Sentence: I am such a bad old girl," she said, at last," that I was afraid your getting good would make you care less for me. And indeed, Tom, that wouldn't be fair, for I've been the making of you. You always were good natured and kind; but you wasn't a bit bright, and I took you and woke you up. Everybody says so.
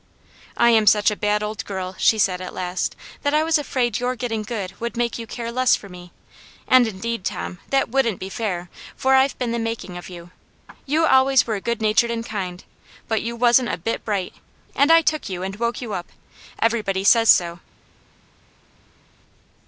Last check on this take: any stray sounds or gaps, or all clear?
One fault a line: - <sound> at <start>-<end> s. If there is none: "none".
none